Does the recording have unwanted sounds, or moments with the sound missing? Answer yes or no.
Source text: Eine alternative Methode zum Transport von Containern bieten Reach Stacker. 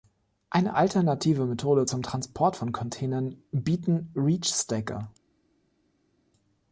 no